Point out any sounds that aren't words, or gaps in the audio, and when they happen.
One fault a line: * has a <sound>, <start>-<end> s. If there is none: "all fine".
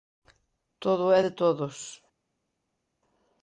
all fine